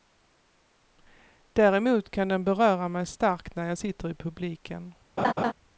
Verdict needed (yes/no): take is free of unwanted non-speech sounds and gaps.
no